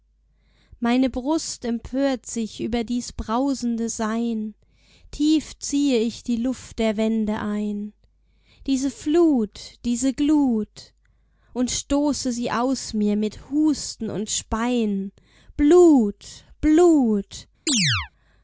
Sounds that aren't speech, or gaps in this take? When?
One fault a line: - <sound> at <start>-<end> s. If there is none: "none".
- chirp at 17.7-18.1 s